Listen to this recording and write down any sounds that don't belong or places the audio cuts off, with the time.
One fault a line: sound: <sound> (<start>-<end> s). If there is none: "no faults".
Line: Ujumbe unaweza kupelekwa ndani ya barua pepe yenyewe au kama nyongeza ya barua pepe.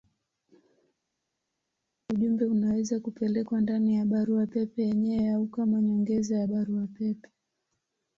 no faults